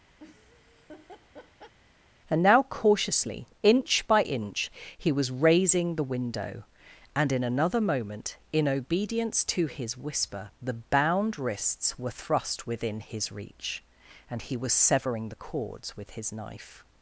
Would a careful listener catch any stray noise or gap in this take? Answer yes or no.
yes